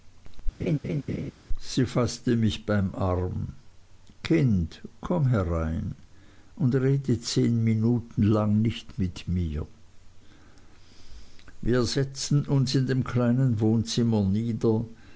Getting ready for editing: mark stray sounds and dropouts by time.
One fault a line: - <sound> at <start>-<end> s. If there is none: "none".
- laugh at 0.6-1.3 s